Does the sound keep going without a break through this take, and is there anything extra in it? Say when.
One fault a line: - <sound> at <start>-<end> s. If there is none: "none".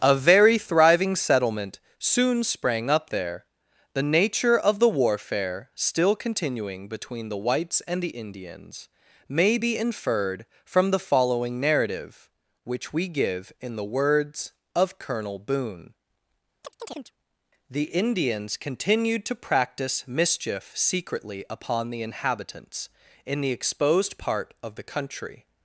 - chirp at 16.6-17.1 s